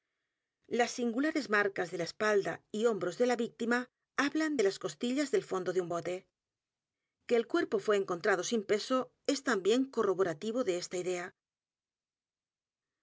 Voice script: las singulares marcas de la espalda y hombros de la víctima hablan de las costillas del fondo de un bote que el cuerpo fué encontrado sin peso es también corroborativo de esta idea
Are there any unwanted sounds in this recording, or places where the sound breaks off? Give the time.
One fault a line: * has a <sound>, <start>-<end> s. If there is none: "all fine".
all fine